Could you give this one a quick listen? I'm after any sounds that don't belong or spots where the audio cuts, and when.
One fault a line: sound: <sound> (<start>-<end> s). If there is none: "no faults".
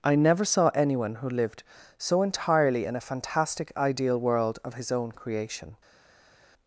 no faults